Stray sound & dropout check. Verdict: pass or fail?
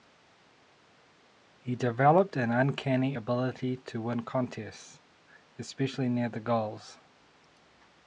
pass